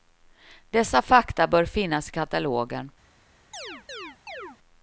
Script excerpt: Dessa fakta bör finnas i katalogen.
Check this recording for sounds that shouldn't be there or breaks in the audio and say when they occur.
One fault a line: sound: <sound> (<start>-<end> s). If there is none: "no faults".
sound: chirp (3.5-4.6 s)